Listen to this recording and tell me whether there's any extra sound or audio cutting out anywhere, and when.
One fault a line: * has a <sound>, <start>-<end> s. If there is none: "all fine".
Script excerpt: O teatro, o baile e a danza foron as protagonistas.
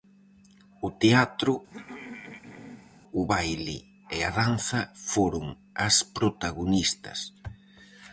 * has a throat clearing, 1.7-3.0 s